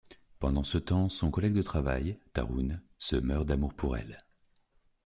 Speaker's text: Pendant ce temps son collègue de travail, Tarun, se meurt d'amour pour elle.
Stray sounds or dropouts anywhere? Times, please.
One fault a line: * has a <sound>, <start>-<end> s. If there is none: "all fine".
all fine